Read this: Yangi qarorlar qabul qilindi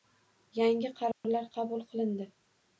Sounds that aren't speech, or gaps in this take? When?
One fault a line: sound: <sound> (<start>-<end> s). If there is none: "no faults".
sound: dropout (1.1-1.2 s)